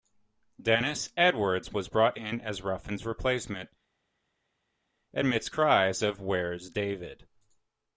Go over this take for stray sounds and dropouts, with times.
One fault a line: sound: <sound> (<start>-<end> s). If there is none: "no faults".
no faults